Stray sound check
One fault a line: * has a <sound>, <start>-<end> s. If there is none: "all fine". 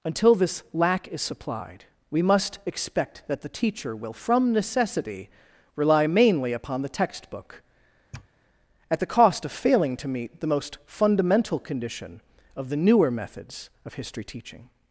* has a sniff, 8.1-8.3 s